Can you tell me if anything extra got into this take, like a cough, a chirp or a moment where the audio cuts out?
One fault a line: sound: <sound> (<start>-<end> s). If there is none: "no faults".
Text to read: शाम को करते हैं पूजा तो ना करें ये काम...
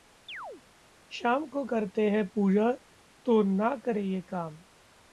sound: chirp (0.3-0.6 s)